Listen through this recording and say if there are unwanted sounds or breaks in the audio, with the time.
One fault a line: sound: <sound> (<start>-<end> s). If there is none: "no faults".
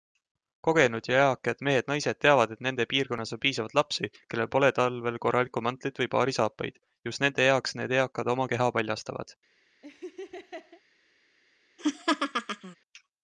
sound: laugh (9.8-10.8 s)
sound: laugh (11.8-12.8 s)